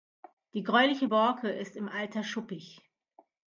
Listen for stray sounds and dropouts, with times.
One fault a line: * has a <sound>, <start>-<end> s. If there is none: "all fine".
all fine